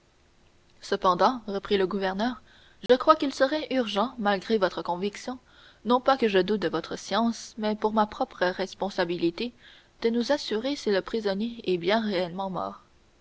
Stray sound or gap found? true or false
true